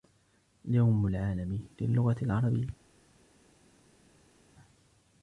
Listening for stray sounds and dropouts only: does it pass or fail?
pass